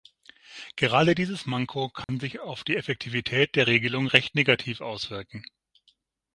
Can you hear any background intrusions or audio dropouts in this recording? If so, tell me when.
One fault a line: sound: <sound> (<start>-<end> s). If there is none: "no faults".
sound: dropout (2.0-2.1 s)